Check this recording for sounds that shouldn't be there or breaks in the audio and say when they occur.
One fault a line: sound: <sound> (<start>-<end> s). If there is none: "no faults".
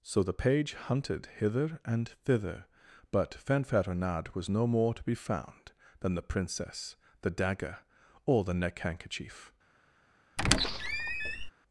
sound: squeak (10.4-11.5 s)